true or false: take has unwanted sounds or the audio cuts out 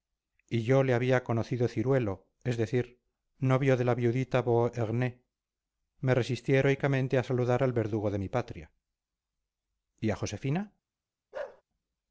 true